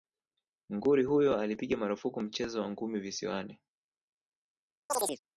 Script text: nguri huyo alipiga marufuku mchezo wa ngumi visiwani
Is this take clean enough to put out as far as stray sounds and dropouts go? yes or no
no